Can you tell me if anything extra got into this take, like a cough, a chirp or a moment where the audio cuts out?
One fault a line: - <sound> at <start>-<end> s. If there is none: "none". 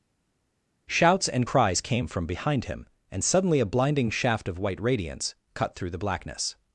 none